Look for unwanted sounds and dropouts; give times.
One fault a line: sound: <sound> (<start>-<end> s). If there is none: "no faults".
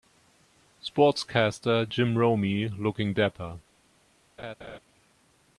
sound: laugh (4.4-4.8 s)